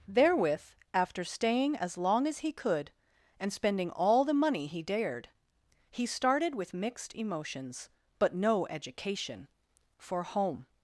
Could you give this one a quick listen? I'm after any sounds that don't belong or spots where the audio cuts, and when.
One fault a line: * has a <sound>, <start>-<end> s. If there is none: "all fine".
all fine